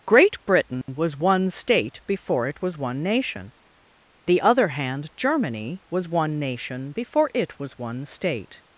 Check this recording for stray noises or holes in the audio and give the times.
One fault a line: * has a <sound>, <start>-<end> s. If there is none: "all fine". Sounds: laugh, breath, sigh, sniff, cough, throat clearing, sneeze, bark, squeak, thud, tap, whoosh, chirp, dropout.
* has a dropout, 0.8-0.9 s